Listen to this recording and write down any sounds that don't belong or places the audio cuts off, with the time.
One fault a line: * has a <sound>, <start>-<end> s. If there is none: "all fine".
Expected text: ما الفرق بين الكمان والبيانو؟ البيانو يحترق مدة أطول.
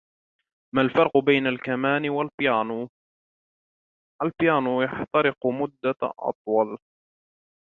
all fine